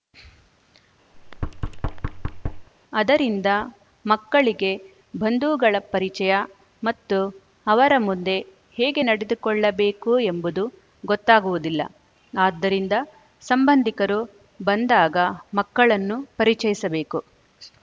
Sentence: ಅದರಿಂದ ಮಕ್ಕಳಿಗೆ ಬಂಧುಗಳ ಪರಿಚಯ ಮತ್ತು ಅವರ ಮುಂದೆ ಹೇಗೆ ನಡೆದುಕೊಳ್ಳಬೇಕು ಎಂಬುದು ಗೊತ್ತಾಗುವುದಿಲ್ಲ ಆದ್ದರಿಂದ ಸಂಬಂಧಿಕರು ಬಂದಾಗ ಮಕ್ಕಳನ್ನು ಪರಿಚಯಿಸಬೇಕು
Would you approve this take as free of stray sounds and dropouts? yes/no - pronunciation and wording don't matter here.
no